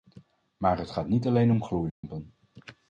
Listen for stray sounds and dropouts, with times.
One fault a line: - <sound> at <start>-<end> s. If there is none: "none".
- dropout at 1.9-2.0 s